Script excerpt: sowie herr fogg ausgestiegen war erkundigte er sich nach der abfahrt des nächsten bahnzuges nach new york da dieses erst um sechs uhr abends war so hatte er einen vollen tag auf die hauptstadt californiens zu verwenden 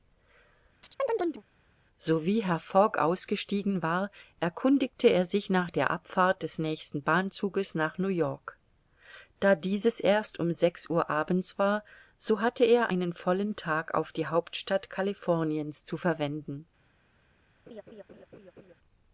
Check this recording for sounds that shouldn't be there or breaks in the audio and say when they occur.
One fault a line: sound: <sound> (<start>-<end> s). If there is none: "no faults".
sound: chirp (0.8-1.4 s)
sound: laugh (17.7-18.7 s)